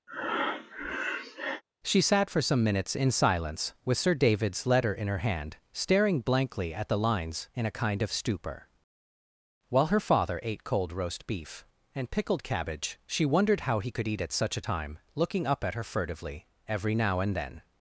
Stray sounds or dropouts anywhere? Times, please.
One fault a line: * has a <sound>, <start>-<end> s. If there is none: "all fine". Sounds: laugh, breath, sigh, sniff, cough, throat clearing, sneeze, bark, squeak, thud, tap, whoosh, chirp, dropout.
* has a breath, 0.1-1.6 s